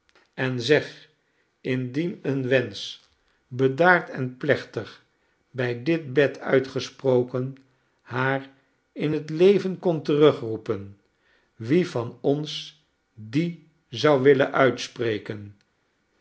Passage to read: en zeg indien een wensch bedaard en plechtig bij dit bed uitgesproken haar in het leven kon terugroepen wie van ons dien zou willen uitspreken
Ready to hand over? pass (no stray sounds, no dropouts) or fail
pass